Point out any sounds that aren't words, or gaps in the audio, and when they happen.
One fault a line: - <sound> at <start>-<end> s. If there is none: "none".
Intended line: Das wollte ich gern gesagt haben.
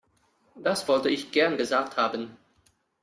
none